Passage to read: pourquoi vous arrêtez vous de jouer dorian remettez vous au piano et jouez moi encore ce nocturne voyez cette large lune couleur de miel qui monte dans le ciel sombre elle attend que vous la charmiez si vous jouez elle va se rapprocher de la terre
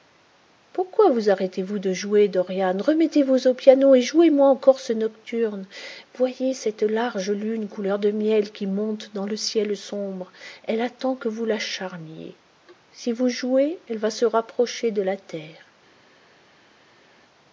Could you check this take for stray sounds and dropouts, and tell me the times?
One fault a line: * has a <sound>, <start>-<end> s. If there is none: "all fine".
all fine